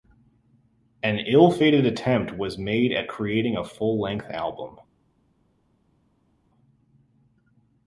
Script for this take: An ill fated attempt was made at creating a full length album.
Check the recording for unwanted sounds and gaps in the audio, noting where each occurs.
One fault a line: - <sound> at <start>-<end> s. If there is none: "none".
none